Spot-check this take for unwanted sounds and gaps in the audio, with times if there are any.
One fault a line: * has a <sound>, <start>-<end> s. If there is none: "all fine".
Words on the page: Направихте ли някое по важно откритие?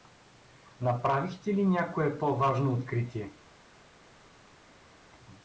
all fine